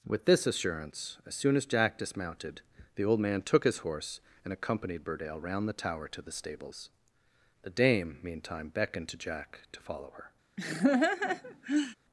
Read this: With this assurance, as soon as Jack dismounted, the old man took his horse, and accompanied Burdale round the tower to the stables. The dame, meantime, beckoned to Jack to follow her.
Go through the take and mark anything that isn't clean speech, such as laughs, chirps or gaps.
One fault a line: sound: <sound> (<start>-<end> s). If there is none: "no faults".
sound: laugh (10.6-12.0 s)